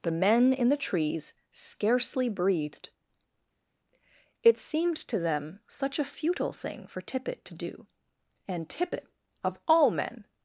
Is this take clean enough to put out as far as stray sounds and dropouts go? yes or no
yes